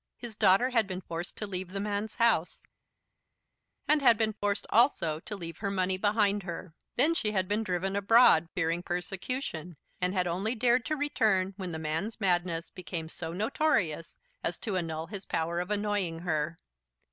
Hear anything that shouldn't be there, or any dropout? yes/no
no